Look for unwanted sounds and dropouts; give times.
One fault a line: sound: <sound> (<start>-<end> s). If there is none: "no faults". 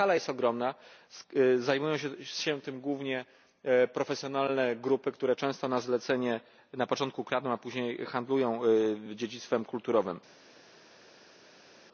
no faults